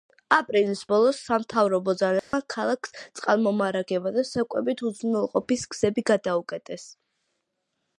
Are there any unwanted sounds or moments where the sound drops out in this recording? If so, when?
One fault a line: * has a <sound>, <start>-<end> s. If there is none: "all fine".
* has a dropout, 2.2-2.3 s